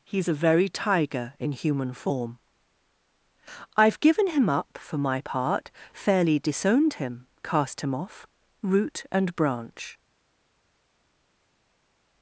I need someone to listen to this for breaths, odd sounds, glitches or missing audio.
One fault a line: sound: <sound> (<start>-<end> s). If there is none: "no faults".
no faults